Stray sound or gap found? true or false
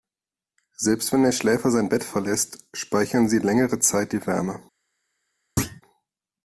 true